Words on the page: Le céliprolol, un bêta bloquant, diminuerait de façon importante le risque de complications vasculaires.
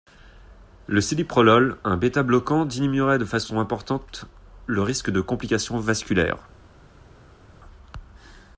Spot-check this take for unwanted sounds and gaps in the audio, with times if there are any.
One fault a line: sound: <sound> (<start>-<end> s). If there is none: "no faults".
no faults